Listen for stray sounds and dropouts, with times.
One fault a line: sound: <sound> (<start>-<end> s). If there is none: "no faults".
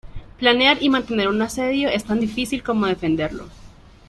no faults